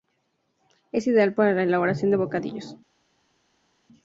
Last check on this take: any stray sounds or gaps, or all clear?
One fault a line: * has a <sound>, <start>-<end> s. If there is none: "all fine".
all fine